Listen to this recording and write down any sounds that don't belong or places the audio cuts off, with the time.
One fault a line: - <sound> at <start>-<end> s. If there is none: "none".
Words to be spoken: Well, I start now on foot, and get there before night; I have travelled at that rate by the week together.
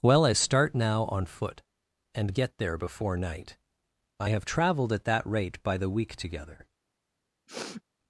- sniff at 7.5-7.8 s